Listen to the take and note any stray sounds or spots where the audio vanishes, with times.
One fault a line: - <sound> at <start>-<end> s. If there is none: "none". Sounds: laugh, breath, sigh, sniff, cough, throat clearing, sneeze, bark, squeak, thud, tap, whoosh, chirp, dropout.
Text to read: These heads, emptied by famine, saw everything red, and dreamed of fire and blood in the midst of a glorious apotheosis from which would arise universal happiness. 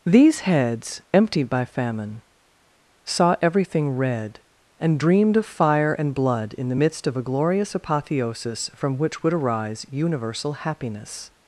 none